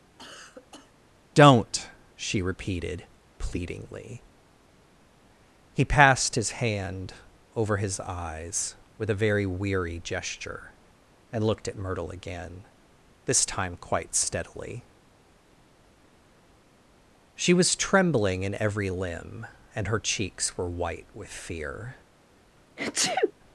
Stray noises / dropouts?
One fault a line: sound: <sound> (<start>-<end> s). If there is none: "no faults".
sound: cough (0.2-0.9 s)
sound: sneeze (22.8-23.3 s)